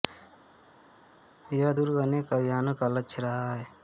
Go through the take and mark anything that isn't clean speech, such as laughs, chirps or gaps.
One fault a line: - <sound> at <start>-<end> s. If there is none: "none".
none